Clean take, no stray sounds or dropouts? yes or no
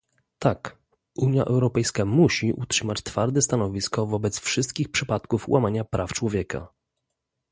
yes